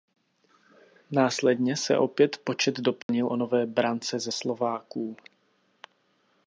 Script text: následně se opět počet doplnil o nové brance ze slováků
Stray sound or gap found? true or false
true